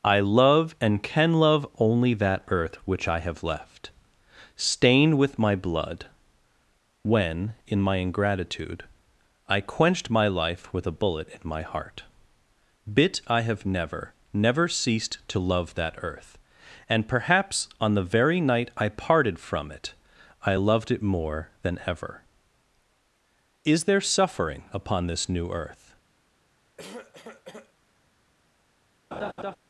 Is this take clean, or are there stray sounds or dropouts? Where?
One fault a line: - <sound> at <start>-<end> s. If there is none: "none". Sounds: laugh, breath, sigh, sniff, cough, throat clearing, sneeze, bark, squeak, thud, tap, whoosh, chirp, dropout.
- cough at 26.8-27.7 s
- laugh at 29.1-29.6 s